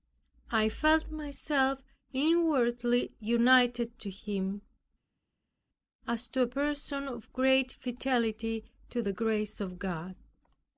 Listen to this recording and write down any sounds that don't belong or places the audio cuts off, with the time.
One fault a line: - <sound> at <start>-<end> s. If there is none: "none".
none